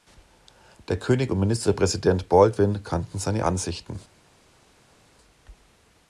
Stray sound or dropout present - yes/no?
no